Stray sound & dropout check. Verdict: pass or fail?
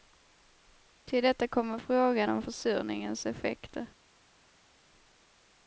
pass